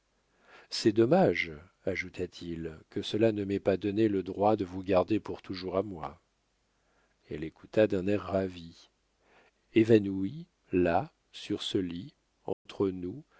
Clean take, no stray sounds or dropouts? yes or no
no